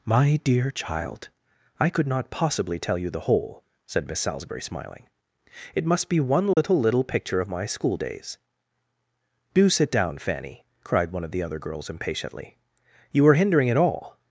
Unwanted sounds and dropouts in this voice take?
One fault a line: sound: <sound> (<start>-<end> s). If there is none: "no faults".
sound: dropout (6.5-6.6 s)